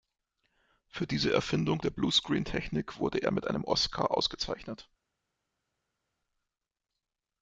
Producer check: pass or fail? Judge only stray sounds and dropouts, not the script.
pass